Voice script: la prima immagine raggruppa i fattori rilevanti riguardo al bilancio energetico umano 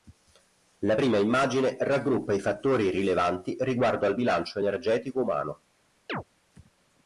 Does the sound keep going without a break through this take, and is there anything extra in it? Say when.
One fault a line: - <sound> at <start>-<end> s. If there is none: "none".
- chirp at 6.1-6.2 s